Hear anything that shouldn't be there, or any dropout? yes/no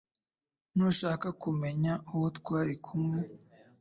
no